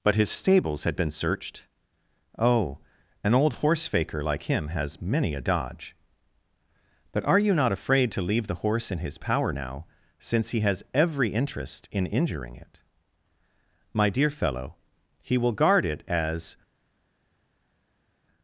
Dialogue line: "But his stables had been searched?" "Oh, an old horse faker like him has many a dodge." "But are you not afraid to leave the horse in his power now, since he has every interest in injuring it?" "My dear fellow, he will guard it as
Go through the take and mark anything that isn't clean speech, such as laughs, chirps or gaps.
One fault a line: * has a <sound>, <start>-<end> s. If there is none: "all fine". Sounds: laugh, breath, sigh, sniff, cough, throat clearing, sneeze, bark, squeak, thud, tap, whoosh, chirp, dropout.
all fine